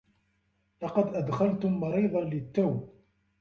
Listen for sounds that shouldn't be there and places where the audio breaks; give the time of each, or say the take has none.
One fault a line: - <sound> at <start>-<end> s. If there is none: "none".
none